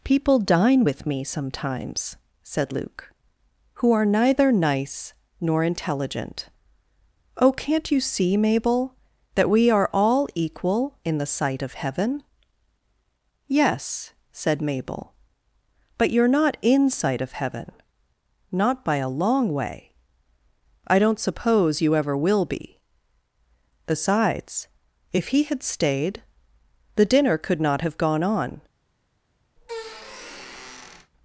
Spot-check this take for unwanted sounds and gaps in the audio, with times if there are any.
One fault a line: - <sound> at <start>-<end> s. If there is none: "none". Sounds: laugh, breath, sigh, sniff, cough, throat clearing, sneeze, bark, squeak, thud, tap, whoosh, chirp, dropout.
- squeak at 29.6-31.1 s